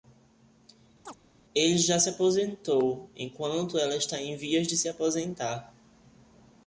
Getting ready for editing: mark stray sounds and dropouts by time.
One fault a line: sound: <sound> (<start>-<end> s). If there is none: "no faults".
sound: chirp (1.1-1.1 s)